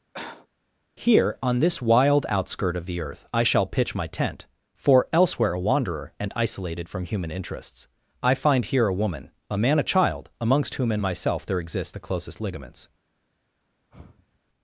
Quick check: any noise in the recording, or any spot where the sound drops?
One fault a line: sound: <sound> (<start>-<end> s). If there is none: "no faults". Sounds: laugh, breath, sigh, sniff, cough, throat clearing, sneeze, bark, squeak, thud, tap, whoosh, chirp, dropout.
sound: cough (0.1-0.5 s)
sound: sigh (13.9-14.4 s)